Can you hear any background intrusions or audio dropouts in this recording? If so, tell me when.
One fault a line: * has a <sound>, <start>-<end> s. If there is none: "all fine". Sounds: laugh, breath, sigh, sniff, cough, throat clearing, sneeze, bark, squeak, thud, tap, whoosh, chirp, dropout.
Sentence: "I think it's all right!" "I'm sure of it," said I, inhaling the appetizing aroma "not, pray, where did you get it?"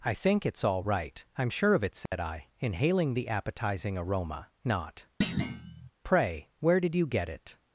* has a dropout, 2.1-2.1 s
* has a thud, 5.2-5.9 s